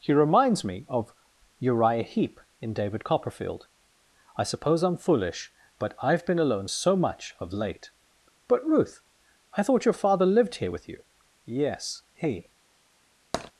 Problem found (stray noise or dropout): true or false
true